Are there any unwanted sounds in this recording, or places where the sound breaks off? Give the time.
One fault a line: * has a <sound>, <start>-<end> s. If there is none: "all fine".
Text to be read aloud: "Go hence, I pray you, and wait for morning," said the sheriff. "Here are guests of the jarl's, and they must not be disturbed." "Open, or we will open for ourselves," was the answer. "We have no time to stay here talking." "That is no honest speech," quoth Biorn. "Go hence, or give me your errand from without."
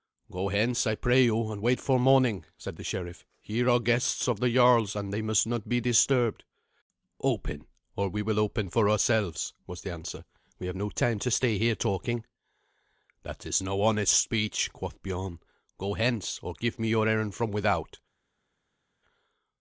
all fine